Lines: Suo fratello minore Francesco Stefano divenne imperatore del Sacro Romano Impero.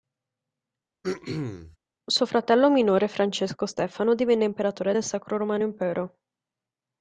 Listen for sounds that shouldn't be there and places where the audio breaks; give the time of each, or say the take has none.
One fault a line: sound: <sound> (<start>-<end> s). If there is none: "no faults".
sound: throat clearing (1.0-1.8 s)